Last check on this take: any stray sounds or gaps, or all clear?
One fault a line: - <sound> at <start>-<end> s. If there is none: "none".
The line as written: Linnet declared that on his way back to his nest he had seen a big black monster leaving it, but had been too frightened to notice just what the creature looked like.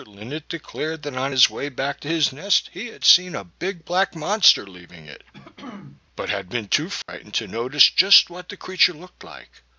- throat clearing at 5.3-6.0 s
- dropout at 7.0-7.1 s